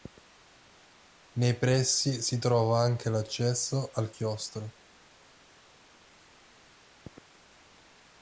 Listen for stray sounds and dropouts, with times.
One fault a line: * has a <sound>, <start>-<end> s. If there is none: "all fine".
all fine